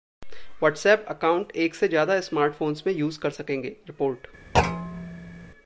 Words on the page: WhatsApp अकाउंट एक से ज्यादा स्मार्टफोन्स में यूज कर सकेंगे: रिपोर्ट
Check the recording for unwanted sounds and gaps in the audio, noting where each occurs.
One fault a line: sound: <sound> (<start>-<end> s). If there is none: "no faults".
sound: thud (4.5-5.5 s)